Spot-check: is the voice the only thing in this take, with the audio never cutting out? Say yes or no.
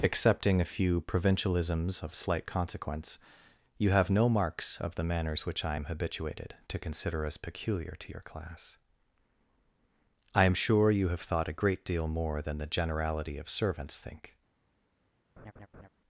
no